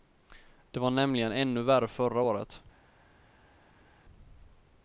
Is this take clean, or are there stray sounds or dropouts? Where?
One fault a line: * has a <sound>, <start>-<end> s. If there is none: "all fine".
all fine